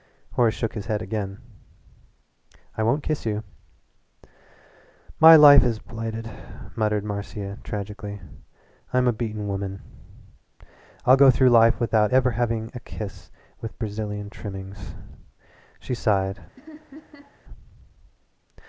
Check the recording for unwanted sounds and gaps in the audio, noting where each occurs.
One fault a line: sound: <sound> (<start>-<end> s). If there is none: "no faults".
sound: laugh (16.6-17.4 s)